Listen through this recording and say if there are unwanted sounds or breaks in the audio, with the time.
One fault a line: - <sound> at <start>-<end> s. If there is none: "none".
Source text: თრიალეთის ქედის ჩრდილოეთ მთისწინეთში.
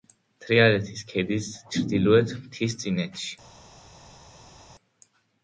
none